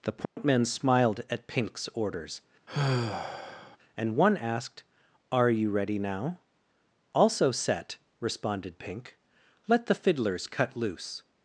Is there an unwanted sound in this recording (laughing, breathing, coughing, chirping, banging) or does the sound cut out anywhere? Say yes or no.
yes